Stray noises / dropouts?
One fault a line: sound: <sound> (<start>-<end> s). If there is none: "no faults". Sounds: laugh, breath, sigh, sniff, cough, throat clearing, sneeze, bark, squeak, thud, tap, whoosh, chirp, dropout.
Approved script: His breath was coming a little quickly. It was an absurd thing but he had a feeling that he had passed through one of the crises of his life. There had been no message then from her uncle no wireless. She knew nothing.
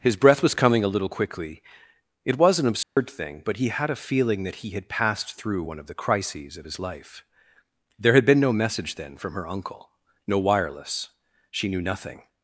sound: dropout (2.8-3.0 s)